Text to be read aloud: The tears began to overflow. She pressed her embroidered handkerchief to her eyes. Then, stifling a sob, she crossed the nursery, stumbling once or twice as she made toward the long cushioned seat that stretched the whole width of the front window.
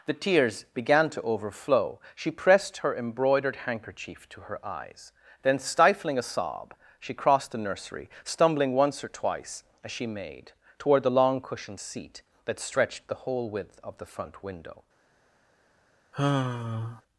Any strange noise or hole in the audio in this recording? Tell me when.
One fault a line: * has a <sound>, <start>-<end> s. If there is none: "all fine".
* has a sigh, 16.1-17.0 s